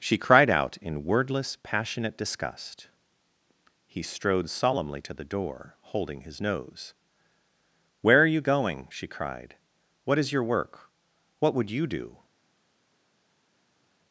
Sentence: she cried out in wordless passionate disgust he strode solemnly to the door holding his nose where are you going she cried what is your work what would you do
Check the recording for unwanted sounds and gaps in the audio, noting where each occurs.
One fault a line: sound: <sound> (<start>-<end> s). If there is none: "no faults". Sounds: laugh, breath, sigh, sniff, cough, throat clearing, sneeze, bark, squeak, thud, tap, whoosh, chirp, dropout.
no faults